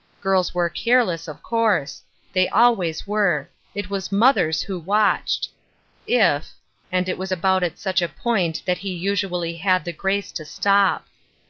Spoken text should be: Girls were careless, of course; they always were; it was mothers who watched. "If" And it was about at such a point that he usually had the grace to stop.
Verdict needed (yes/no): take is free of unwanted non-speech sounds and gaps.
yes